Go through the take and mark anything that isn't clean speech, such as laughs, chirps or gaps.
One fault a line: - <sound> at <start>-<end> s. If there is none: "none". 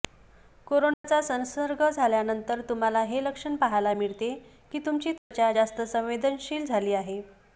- dropout at 0.9-1.0 s
- dropout at 5.2-5.3 s